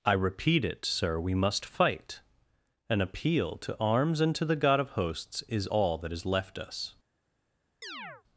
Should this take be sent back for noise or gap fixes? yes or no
yes